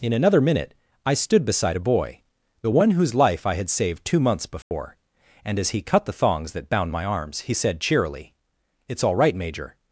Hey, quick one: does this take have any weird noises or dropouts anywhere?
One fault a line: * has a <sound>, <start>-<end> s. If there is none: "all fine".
* has a dropout, 4.6-4.7 s